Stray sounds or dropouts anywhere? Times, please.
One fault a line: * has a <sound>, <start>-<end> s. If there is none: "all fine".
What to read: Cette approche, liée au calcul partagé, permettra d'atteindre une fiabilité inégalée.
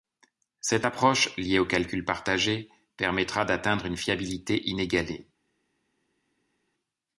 all fine